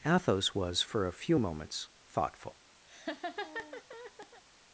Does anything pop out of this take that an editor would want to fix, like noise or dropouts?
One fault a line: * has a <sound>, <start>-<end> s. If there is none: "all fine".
* has a laugh, 2.9-4.4 s